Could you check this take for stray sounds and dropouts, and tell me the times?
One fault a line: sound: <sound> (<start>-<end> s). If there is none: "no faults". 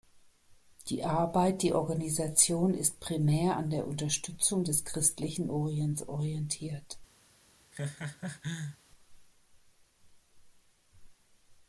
sound: laugh (7.7-8.8 s)